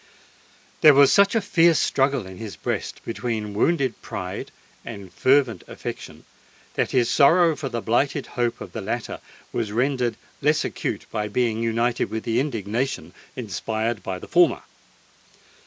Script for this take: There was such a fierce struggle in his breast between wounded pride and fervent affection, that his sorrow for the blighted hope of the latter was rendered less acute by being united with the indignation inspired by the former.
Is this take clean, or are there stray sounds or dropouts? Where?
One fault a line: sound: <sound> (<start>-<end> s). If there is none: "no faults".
no faults